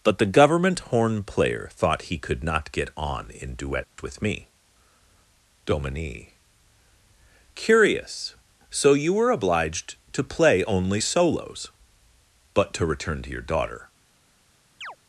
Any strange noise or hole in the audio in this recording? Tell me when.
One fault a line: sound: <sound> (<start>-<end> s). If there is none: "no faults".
sound: dropout (3.8-4.0 s)
sound: chirp (14.8-15.0 s)